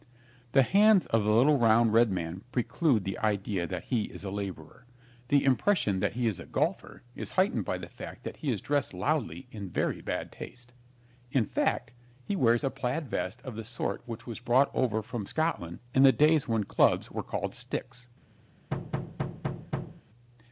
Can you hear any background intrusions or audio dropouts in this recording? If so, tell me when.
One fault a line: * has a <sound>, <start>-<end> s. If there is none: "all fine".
* has a thud, 18.7-20.0 s